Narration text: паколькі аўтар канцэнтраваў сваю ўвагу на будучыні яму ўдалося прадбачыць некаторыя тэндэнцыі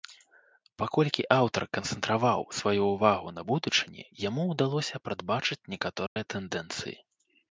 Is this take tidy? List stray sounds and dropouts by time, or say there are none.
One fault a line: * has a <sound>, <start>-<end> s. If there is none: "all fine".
* has a dropout, 6.1-6.2 s